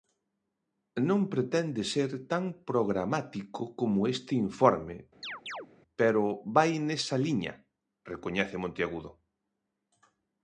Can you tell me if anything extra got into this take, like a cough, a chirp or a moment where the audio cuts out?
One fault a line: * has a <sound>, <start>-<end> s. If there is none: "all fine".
* has a chirp, 5.2-5.7 s